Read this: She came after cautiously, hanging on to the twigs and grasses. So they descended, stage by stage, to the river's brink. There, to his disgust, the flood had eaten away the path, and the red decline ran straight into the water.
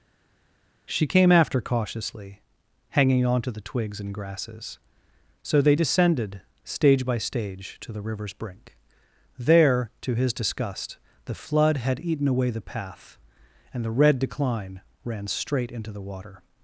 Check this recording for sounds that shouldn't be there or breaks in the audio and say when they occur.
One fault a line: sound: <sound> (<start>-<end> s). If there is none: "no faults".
no faults